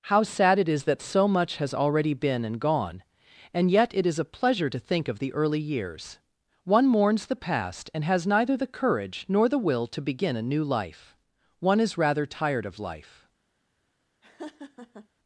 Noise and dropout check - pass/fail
fail